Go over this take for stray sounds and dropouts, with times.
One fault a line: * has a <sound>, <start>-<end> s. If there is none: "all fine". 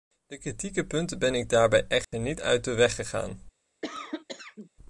* has a dropout, 2.0-2.1 s
* has a cough, 3.8-4.7 s